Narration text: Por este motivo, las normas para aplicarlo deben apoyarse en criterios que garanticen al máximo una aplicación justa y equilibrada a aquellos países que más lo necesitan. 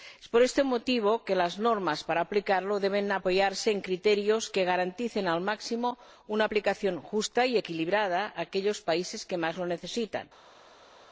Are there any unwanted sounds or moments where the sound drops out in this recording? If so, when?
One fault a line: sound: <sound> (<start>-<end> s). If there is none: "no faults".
no faults